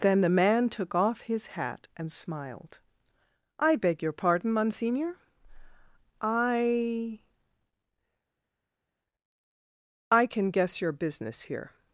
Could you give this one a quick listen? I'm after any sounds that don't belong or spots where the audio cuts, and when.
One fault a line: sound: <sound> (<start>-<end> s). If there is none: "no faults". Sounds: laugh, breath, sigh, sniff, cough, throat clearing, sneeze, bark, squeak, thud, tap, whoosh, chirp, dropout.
no faults